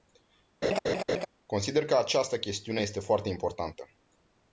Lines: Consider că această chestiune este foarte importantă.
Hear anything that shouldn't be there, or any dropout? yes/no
yes